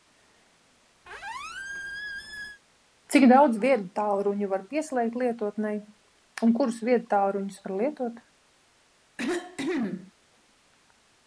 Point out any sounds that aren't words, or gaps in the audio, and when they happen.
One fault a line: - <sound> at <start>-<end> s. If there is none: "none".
- squeak at 1.0-2.6 s
- cough at 9.2-10.1 s